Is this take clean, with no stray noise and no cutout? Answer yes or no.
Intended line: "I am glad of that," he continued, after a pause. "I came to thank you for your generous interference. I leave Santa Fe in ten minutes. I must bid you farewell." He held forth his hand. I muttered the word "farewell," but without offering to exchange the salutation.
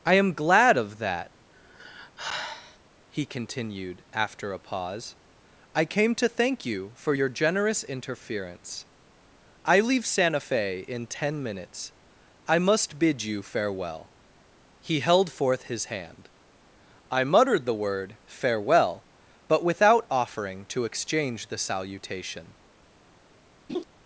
no